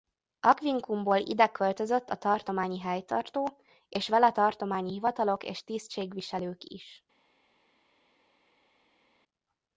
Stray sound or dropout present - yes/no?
no